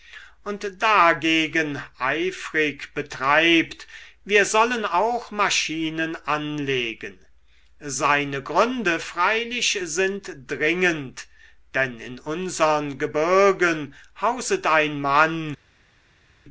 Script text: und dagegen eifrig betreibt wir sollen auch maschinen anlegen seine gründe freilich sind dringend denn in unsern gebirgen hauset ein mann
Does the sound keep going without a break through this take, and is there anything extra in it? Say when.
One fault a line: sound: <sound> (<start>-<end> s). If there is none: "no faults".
no faults